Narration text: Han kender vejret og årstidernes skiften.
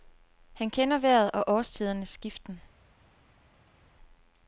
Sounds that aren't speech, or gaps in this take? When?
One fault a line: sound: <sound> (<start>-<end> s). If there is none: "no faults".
no faults